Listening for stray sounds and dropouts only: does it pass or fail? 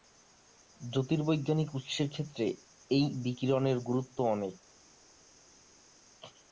pass